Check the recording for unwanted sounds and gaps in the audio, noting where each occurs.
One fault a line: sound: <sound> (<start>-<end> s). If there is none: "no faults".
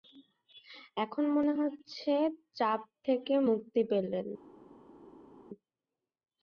no faults